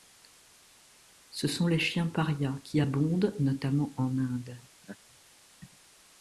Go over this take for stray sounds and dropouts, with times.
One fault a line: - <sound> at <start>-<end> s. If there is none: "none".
- laugh at 4.8-5.0 s